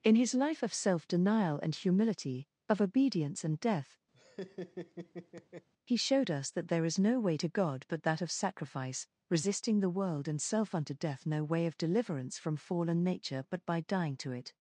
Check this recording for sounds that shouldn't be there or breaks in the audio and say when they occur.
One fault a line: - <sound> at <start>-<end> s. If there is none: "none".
- laugh at 4.1-5.7 s